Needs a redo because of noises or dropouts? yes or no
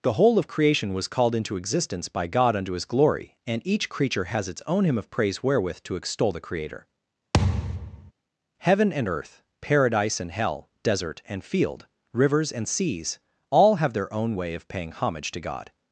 yes